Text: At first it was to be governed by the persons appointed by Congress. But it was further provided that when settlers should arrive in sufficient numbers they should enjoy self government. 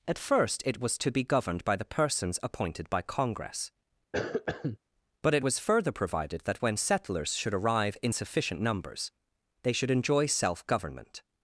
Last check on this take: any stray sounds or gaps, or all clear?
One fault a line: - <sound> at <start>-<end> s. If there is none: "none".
- cough at 4.1-4.8 s